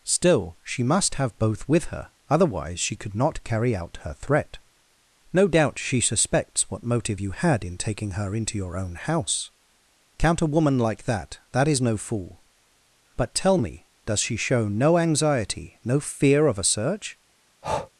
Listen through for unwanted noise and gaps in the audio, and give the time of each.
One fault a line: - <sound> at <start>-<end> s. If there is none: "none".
- breath at 17.6-17.9 s